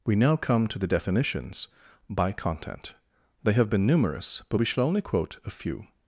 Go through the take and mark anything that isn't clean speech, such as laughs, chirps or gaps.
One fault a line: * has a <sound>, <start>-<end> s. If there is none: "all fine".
all fine